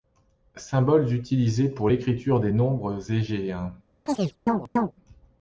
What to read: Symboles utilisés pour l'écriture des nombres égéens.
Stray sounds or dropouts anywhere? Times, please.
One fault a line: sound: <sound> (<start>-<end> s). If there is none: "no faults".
sound: chirp (4.1-4.9 s)